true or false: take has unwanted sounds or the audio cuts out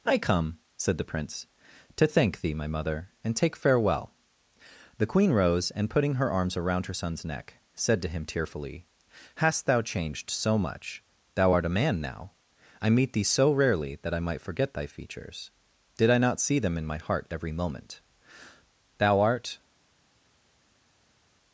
false